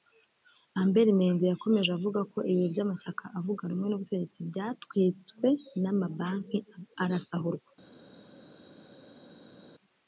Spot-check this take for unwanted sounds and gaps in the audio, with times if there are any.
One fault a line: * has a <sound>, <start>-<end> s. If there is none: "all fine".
all fine